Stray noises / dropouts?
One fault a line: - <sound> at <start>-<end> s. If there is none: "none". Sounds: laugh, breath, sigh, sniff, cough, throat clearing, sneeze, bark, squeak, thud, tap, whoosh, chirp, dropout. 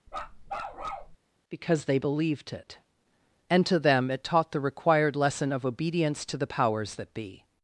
- bark at 0.1-1.2 s